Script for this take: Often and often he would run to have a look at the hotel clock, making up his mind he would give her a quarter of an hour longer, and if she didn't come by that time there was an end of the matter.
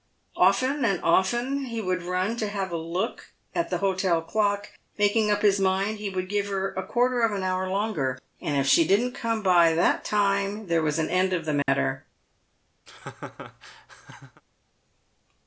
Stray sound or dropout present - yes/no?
yes